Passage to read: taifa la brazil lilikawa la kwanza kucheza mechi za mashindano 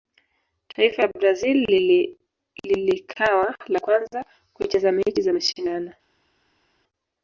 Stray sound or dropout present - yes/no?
no